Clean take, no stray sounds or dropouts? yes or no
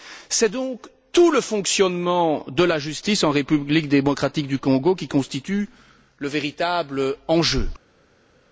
yes